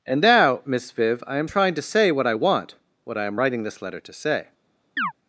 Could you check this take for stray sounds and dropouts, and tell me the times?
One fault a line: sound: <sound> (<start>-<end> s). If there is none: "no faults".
sound: chirp (5.0-5.1 s)